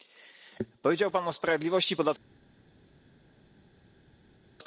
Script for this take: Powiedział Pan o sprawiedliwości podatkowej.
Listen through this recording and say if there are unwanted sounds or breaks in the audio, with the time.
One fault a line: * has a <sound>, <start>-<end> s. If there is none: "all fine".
all fine